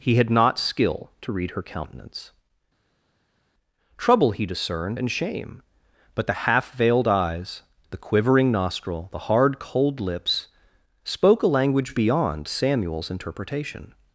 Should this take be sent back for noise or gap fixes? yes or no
no